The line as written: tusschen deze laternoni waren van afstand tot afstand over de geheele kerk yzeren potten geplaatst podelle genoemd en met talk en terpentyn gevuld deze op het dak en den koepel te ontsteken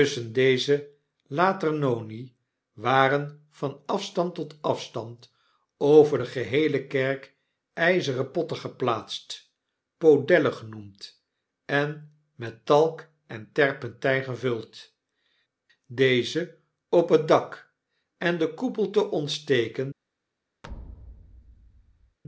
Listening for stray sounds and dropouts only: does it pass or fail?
fail